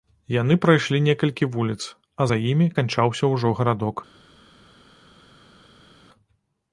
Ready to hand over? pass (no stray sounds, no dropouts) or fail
pass